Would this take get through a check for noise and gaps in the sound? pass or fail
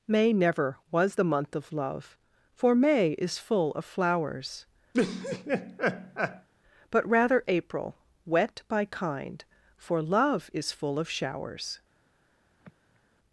fail